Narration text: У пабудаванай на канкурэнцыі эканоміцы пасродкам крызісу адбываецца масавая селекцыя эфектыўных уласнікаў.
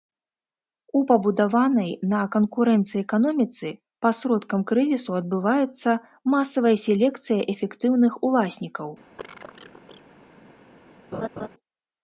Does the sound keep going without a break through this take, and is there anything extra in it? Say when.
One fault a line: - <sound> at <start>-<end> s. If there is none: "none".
- cough at 9.2-10.0 s
- laugh at 11.1-11.5 s